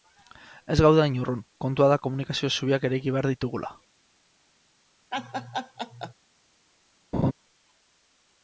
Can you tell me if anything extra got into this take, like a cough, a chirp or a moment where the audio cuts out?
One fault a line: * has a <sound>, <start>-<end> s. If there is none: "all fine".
* has a laugh, 5.1-6.1 s
* has a laugh, 7.1-7.3 s